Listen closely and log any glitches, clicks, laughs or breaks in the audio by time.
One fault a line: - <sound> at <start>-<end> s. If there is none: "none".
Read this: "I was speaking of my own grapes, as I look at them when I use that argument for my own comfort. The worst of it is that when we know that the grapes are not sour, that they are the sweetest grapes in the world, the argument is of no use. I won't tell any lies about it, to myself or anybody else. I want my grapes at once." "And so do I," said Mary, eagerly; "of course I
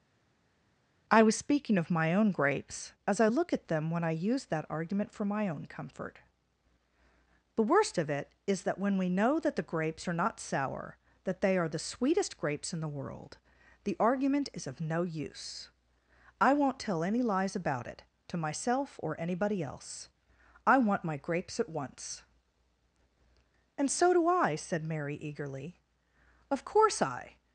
none